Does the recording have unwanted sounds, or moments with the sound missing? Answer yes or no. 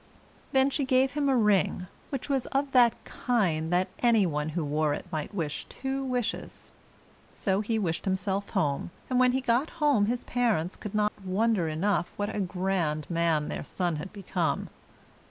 yes